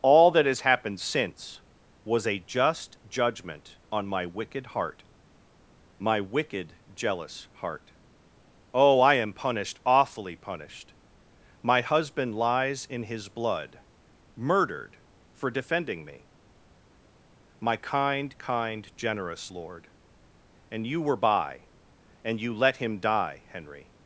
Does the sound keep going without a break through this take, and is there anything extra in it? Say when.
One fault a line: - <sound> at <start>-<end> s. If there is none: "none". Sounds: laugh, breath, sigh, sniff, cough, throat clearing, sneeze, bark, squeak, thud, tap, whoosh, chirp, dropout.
none